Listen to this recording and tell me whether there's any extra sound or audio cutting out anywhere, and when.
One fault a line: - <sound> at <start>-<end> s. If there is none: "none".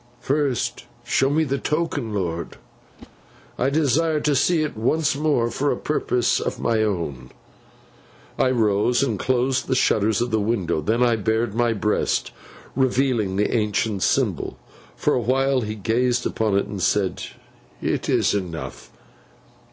- whoosh at 3.0-3.1 s